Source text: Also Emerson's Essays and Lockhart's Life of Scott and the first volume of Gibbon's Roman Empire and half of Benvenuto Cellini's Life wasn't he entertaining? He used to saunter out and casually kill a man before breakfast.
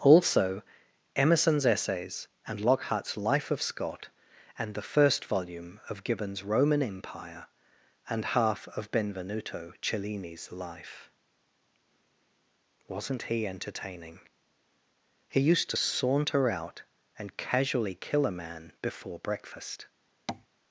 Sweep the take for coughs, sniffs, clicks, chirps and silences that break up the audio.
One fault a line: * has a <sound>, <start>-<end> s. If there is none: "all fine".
* has a tap, 20.3-20.5 s